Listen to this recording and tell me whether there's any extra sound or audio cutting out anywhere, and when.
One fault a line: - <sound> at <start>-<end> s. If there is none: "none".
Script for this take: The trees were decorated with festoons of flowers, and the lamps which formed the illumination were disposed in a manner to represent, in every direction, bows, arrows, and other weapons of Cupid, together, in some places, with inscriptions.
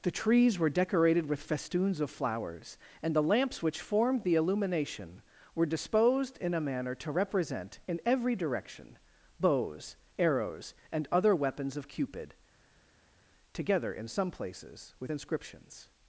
none